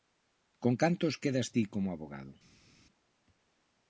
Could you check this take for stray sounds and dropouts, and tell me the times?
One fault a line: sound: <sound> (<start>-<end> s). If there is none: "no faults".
no faults